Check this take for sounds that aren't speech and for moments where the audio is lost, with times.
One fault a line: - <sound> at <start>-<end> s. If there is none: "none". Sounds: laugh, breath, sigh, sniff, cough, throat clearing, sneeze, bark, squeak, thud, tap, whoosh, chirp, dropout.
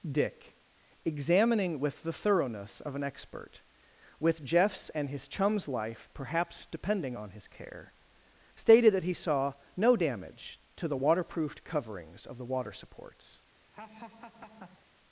- laugh at 13.7-14.9 s